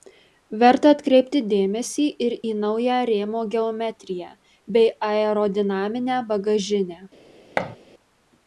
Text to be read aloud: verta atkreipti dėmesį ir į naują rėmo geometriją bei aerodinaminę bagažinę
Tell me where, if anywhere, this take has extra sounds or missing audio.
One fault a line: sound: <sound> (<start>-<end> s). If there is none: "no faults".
sound: thud (7.6-7.8 s)